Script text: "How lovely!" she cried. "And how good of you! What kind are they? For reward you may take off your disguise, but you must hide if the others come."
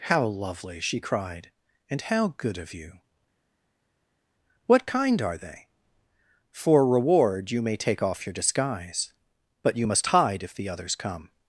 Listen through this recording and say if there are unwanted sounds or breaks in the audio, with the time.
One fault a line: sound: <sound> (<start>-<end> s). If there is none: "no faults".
no faults